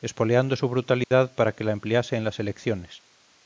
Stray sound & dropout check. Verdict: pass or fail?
fail